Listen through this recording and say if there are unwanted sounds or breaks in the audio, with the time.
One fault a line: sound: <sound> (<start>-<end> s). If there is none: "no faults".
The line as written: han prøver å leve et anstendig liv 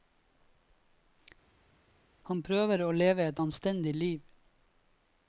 no faults